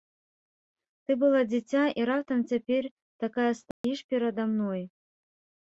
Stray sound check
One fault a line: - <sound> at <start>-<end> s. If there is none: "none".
- dropout at 3.7-3.8 s